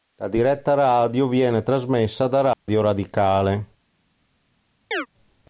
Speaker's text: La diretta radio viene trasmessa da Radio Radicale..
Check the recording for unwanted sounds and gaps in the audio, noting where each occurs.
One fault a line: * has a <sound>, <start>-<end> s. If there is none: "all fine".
* has a dropout, 2.5-2.7 s
* has a chirp, 4.9-5.1 s